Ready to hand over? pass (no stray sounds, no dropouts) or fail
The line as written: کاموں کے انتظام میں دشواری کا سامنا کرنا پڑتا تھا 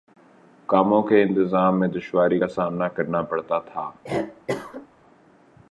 fail